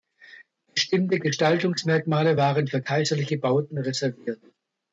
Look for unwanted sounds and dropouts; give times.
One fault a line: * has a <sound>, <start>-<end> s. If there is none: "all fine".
all fine